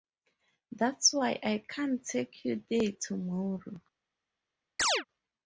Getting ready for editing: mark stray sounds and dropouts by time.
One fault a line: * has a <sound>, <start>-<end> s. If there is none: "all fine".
* has a chirp, 4.8-5.0 s